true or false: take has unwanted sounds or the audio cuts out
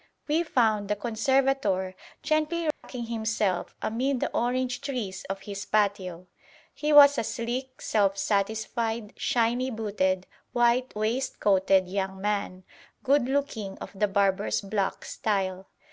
true